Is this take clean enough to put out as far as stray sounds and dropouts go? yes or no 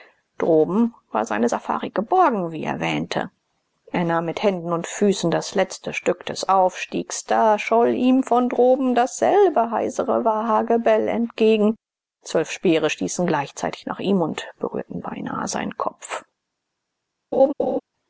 no